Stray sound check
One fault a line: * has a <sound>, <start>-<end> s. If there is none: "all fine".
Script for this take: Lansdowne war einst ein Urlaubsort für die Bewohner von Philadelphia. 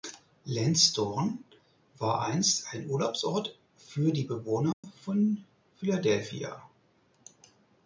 * has a dropout, 4.7-4.8 s